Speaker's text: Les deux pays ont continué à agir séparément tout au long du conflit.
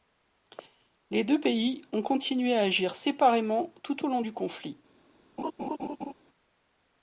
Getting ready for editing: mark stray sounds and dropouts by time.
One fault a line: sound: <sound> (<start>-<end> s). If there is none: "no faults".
sound: laugh (5.4-6.1 s)